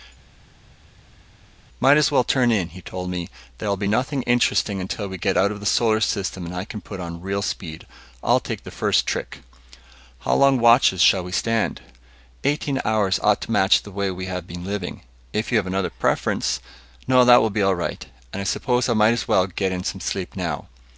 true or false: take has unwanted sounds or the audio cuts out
false